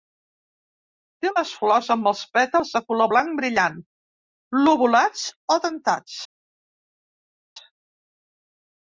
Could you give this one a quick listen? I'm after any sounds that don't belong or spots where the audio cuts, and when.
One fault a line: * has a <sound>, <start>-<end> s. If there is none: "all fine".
all fine